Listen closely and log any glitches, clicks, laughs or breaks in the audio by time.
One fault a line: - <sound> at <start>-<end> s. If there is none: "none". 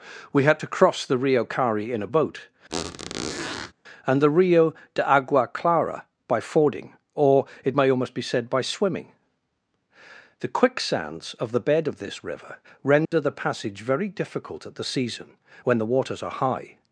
- squeak at 2.7-3.7 s
- dropout at 13.1-13.1 s